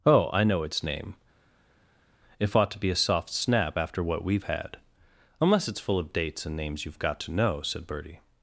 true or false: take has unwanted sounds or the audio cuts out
false